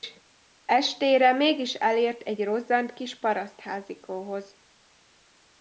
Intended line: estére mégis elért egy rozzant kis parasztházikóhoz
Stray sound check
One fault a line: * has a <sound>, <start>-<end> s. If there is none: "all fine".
all fine